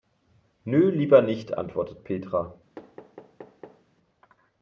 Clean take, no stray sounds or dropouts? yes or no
no